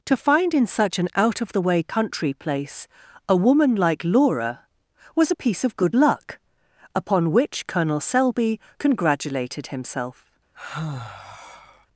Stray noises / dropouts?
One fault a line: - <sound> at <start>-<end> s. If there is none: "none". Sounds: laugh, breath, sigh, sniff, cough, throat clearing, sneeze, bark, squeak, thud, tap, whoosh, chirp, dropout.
- sigh at 10.5-11.9 s